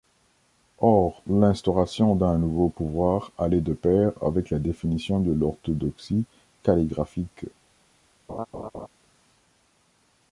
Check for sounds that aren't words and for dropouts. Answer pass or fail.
fail